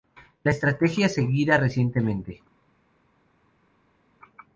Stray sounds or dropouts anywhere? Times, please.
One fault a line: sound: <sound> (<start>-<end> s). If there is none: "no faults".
no faults